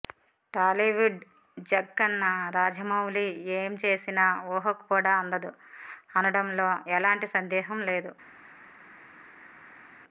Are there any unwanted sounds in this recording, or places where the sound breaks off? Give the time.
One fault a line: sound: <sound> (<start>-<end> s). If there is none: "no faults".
no faults